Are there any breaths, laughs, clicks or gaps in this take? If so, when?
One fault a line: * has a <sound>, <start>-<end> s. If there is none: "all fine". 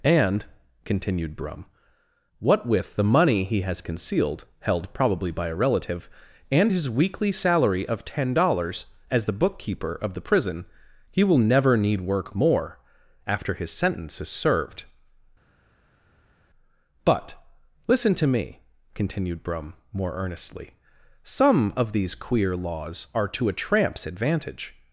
all fine